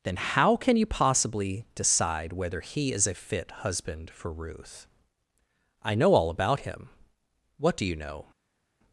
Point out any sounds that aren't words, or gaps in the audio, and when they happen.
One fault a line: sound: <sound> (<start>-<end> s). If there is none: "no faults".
no faults